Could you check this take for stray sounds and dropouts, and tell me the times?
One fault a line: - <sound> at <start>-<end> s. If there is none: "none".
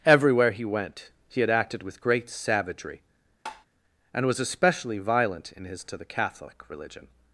- tap at 3.5-3.7 s